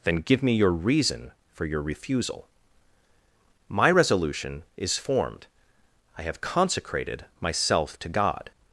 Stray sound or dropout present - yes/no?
no